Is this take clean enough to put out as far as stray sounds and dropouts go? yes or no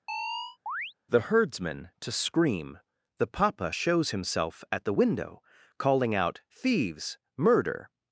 no